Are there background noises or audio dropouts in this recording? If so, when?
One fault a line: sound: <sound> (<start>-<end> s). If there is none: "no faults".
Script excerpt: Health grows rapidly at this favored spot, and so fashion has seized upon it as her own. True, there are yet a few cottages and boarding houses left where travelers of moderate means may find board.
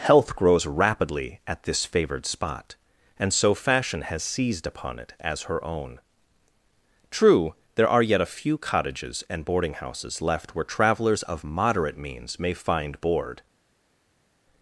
no faults